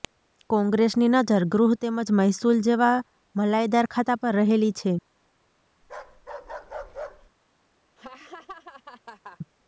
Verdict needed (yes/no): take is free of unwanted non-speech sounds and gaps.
no